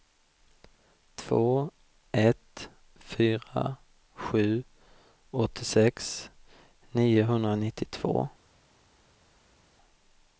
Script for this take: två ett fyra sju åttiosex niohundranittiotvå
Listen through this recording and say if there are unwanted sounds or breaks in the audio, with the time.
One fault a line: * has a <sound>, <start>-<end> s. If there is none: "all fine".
all fine